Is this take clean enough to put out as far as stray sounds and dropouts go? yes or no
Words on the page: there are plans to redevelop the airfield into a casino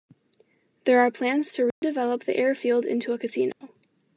no